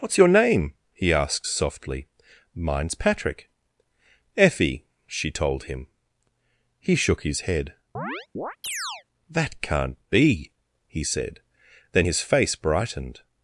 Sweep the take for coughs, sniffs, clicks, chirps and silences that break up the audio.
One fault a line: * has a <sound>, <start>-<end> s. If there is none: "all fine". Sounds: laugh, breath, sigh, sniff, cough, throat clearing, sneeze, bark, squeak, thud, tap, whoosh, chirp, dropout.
* has a chirp, 7.9-9.0 s